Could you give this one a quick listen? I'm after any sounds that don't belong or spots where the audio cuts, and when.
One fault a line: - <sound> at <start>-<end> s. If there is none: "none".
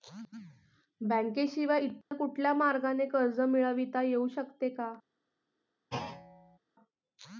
- dropout at 2.0-2.1 s
- thud at 5.9-6.6 s